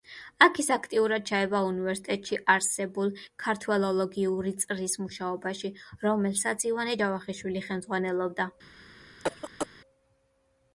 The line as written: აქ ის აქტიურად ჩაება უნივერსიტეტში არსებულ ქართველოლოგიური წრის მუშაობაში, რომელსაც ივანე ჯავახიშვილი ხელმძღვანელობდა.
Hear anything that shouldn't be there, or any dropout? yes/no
yes